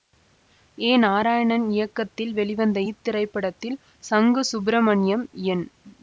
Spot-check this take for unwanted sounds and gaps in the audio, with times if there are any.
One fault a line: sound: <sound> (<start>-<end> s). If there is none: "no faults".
no faults